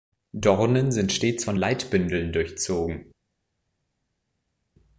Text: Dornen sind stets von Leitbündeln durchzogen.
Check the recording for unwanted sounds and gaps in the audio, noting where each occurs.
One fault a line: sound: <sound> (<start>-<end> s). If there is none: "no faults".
no faults